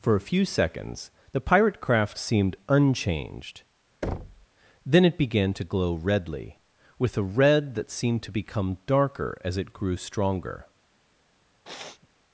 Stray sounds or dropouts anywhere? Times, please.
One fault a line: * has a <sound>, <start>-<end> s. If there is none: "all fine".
* has a thud, 4.0-4.5 s
* has a sniff, 11.6-12.1 s